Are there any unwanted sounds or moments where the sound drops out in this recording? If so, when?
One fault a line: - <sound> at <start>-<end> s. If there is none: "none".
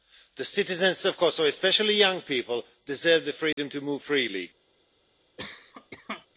- dropout at 3.5-3.6 s
- cough at 5.4-6.3 s